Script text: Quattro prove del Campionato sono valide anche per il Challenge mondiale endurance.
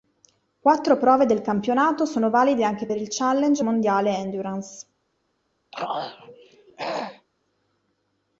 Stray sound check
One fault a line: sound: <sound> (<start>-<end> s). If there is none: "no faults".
sound: throat clearing (5.7-7.3 s)